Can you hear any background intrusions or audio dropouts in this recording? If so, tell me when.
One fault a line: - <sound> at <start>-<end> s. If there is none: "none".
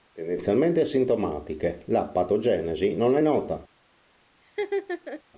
- laugh at 4.4-5.2 s